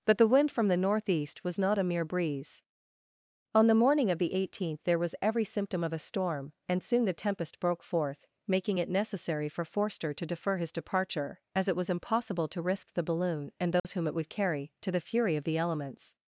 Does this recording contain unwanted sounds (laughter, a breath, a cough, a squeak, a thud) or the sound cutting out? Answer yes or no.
yes